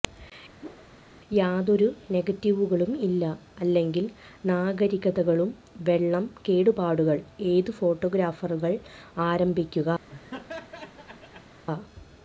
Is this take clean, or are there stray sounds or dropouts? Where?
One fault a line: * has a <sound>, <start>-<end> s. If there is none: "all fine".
* has a whoosh, 0.6-0.9 s
* has a laugh, 10.1-11.6 s